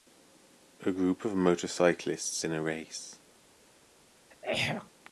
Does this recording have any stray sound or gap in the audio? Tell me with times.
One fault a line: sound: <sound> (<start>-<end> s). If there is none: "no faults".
sound: throat clearing (4.3-4.9 s)